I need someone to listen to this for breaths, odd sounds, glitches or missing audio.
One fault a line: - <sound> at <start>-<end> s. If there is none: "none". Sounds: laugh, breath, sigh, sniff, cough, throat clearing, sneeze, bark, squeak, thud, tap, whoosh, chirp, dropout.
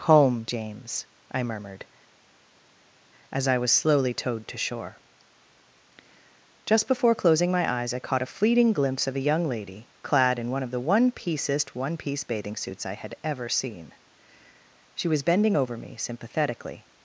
none